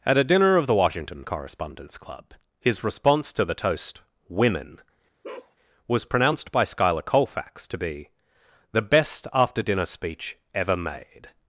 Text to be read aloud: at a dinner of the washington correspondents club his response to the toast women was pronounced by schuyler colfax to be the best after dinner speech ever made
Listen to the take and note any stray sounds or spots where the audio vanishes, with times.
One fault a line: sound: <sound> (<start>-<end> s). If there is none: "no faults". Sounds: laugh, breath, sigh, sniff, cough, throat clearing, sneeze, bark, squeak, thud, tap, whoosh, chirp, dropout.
sound: bark (5.2-5.6 s)